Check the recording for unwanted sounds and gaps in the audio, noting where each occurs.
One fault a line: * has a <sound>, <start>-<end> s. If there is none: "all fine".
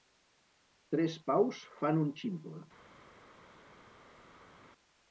all fine